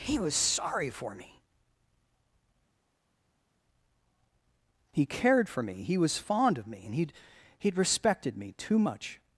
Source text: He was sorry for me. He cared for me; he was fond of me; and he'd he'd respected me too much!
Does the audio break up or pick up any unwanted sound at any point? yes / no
no